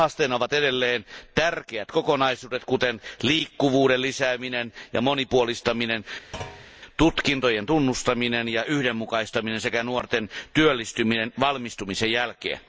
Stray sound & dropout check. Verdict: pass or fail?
fail